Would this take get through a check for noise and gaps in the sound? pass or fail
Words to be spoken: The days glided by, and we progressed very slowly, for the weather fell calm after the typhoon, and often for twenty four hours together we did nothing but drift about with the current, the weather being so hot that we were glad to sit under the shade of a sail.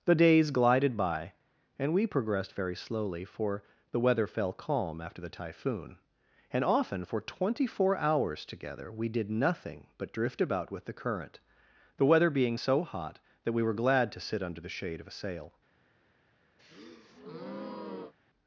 fail